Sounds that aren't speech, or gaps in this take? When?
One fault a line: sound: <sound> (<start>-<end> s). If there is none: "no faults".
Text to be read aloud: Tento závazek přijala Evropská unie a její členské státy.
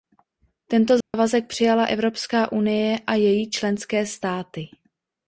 sound: dropout (1.0-1.1 s)